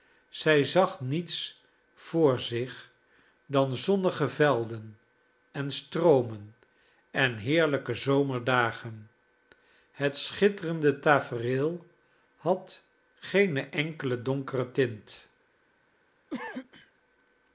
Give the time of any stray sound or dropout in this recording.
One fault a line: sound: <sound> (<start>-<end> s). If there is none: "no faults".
sound: cough (16.3-16.9 s)